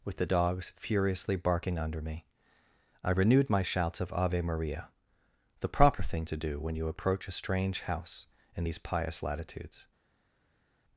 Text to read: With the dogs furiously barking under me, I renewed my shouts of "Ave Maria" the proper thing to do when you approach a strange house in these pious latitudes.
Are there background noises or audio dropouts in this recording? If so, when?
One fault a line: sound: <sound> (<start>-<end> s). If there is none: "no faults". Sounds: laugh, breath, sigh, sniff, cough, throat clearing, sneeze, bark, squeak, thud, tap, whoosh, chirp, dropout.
no faults